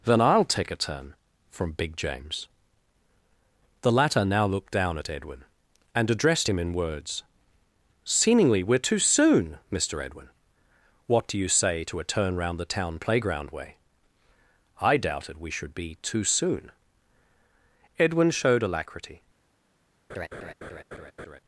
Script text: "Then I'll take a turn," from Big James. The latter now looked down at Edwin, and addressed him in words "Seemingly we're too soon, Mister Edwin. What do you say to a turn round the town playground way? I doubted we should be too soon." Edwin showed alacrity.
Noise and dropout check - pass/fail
fail